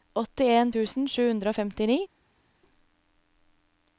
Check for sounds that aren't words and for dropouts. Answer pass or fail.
pass